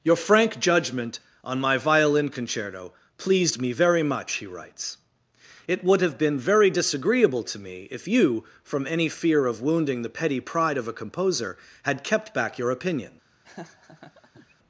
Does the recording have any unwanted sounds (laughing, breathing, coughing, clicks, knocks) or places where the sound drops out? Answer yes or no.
yes